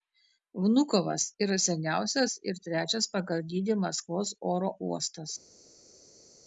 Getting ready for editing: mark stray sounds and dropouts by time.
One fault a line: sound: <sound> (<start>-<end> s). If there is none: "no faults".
no faults